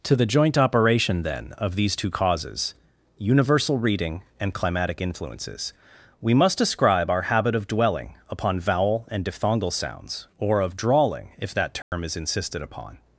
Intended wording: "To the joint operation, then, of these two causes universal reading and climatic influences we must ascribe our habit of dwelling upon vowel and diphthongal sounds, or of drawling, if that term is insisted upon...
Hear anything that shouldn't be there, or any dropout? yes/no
yes